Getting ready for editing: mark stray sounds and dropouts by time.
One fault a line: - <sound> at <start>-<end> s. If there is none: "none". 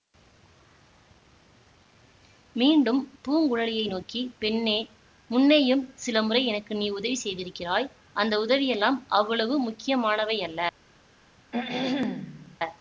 - throat clearing at 11.5-12.6 s